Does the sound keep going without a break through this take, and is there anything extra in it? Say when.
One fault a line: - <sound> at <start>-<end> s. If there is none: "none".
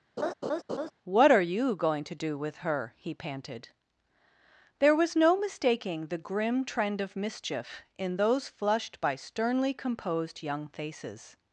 - laugh at 0.2-0.9 s